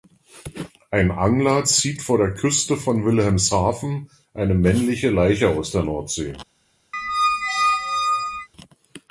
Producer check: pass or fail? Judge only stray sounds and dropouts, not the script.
fail